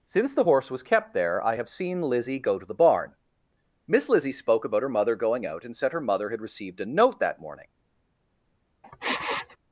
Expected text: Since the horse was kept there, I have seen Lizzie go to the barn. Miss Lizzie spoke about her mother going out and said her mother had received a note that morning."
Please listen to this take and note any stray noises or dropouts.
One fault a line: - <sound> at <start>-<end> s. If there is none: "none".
- sniff at 8.8-9.6 s